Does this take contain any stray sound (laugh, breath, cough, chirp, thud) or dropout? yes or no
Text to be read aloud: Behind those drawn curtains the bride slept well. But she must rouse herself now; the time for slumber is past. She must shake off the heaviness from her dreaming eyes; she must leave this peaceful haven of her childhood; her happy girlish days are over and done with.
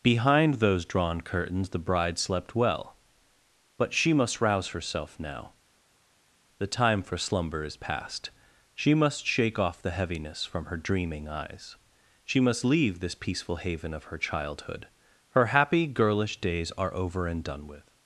no